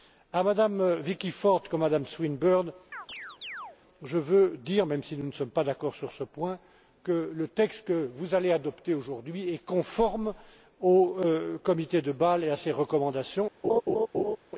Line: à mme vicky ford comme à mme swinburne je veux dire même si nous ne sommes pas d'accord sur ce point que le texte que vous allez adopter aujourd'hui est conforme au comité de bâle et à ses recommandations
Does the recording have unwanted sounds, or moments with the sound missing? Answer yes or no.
yes